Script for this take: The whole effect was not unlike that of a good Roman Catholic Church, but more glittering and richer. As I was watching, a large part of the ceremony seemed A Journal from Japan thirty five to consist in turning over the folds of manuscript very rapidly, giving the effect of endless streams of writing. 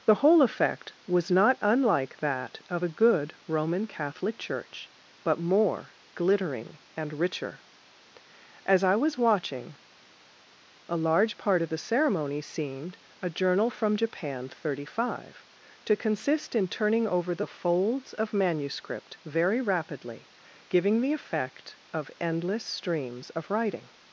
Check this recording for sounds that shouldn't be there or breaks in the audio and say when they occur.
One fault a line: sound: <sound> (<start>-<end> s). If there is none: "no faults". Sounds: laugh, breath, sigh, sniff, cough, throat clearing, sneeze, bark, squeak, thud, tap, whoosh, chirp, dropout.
no faults